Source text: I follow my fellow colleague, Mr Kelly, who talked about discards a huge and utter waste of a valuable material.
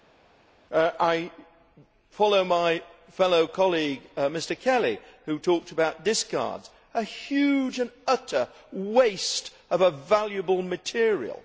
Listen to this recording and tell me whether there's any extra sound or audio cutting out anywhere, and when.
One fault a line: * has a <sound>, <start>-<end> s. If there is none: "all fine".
all fine